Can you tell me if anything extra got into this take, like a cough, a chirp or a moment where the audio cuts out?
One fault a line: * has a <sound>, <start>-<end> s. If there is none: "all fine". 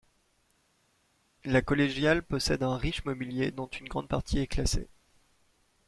all fine